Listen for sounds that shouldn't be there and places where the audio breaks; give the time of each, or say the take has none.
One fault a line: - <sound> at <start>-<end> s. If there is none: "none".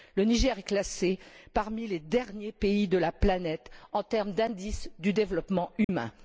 - dropout at 5.8-5.9 s